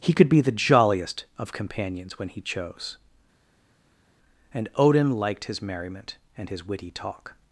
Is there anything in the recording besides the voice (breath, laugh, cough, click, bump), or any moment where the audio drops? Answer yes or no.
no